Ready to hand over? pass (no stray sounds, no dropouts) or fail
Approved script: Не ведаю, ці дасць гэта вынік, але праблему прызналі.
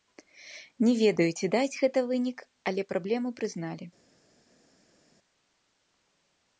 pass